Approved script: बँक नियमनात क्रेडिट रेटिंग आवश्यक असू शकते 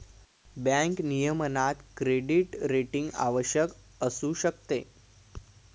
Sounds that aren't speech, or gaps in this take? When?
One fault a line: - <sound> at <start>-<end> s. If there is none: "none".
none